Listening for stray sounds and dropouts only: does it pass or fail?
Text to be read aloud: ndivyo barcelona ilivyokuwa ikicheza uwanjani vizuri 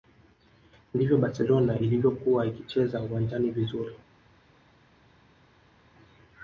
pass